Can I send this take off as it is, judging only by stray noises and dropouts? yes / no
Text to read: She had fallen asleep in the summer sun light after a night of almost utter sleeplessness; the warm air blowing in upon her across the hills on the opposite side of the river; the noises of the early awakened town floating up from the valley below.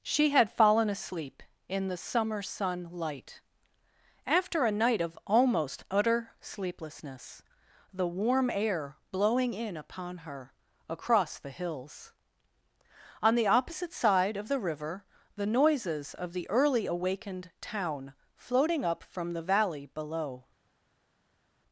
yes